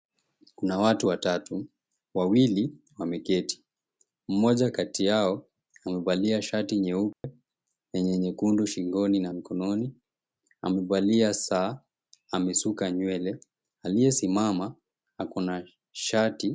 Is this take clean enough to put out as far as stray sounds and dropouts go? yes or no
no